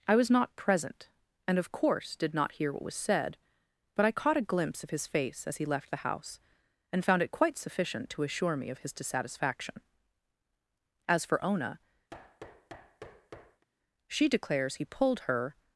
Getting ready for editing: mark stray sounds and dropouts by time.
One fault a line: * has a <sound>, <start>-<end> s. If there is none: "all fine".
* has a thud, 12.1-13.7 s